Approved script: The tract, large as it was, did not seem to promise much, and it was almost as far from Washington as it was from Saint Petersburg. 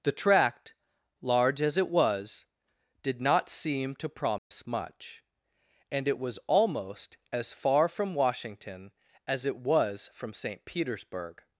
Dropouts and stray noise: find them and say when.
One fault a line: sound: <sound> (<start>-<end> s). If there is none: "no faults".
sound: dropout (4.4-4.5 s)